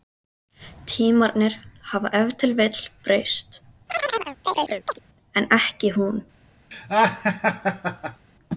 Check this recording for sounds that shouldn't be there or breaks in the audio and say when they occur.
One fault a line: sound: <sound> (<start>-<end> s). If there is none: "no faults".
sound: chirp (3.9-5.0 s)
sound: laugh (6.7-8.3 s)